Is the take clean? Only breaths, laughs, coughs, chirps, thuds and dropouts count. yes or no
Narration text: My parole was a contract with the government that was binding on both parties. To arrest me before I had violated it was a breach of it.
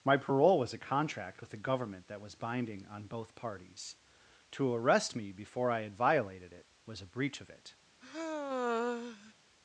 no